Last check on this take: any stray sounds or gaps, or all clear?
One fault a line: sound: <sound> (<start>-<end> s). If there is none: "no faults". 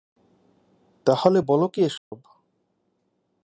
sound: dropout (2.0-2.1 s)